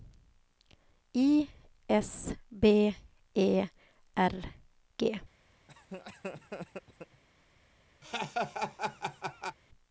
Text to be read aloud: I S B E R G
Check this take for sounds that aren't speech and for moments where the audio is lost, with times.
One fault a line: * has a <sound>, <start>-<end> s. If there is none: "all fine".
* has a laugh, 5.7-7.2 s
* has a laugh, 8.0-9.6 s